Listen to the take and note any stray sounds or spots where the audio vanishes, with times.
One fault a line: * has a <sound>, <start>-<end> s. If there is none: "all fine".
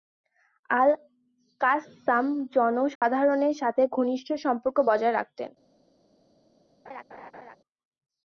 * has a dropout, 3.0-3.0 s
* has a laugh, 6.9-7.6 s